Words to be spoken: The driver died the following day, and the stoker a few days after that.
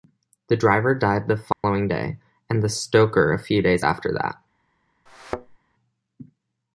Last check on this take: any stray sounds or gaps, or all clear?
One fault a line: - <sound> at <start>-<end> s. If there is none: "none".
- dropout at 1.5-1.6 s
- thud at 5.1-5.6 s